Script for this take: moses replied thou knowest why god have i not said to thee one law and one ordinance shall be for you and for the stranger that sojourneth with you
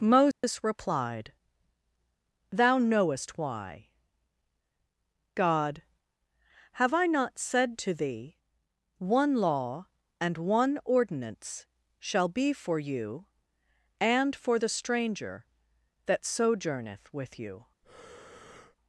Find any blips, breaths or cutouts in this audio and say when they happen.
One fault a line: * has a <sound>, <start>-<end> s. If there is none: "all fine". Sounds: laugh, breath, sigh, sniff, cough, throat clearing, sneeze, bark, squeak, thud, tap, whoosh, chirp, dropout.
* has a dropout, 0.3-0.4 s
* has a breath, 17.8-18.8 s